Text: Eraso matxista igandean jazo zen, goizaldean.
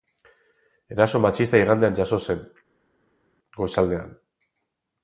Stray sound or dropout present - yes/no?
no